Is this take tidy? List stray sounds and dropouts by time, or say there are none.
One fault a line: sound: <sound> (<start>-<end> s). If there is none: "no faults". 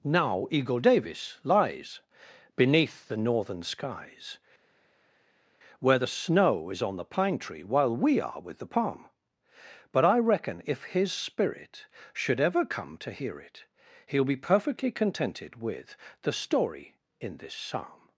no faults